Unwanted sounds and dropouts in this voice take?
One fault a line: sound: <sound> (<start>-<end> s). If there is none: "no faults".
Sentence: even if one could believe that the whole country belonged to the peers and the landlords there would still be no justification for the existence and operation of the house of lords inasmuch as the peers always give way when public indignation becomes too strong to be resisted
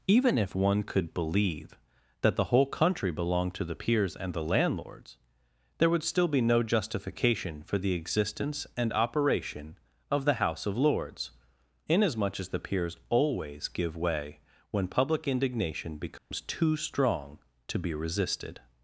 sound: dropout (16.2-16.3 s)